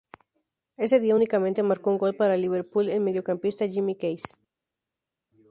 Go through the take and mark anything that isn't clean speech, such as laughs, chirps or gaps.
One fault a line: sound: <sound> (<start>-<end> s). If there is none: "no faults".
no faults